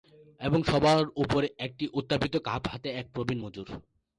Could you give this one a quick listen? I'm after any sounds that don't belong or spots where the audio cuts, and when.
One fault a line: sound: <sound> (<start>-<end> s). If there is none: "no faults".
no faults